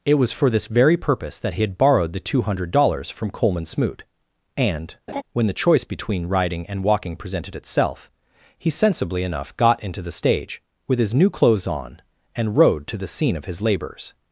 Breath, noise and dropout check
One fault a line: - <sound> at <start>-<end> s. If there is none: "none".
- laugh at 5.1-5.2 s